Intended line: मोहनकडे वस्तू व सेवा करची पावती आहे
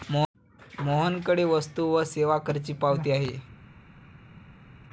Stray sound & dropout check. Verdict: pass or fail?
pass